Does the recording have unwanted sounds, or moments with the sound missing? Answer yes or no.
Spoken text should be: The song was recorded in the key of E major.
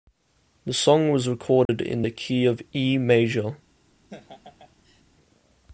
yes